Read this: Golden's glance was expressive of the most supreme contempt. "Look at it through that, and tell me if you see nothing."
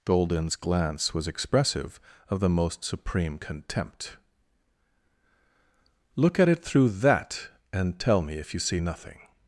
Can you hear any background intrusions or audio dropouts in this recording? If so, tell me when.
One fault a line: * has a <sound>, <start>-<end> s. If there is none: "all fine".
all fine